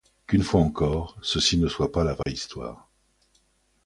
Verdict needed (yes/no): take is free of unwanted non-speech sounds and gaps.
no